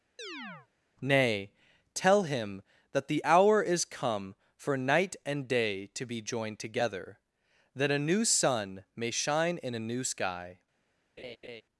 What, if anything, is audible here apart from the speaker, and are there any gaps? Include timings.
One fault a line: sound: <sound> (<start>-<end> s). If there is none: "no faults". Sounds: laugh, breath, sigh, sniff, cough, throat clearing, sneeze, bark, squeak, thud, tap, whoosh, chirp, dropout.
sound: chirp (0.2-0.7 s)
sound: laugh (11.2-11.6 s)